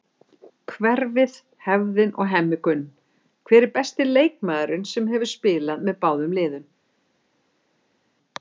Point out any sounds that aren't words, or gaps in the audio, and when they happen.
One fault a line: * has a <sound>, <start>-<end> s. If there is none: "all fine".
all fine